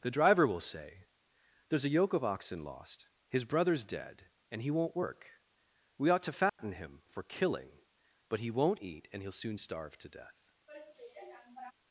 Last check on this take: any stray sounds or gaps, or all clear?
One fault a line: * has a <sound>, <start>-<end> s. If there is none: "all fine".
* has a dropout, 6.5-6.6 s
* has a sigh, 10.7-11.7 s